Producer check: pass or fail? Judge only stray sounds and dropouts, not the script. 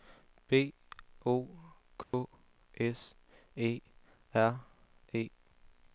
fail